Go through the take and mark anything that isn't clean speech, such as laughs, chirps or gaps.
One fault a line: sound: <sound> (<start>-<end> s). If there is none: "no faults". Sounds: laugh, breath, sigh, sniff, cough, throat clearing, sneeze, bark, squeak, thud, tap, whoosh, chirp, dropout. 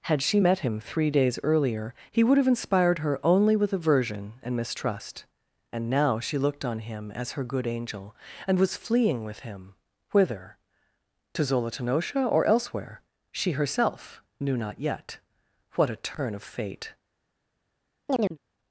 sound: chirp (18.1-18.4 s)